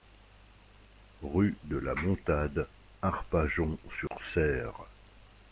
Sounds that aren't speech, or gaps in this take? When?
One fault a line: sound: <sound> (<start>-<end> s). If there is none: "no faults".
sound: dropout (4.1-4.1 s)